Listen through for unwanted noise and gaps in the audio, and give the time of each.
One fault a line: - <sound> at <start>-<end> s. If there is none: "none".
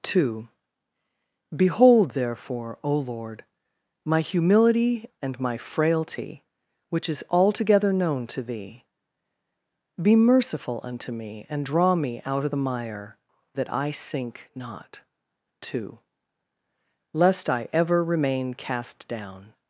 none